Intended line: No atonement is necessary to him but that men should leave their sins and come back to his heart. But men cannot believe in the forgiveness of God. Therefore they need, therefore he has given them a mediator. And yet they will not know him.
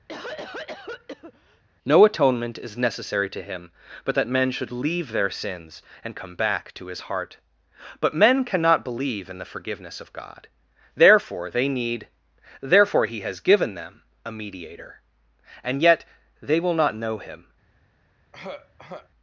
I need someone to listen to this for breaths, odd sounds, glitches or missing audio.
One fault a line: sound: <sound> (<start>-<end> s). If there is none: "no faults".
sound: cough (0.1-1.6 s)
sound: throat clearing (18.3-19.1 s)